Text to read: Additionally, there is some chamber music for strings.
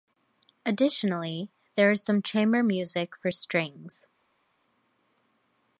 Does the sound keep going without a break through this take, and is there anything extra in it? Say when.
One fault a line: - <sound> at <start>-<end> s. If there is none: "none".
none